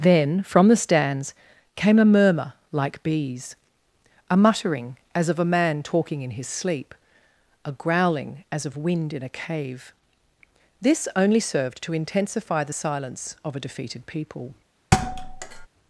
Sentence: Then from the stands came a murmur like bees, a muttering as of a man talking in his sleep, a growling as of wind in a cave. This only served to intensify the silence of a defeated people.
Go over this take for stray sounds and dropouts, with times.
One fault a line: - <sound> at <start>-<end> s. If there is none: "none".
- thud at 14.9-15.7 s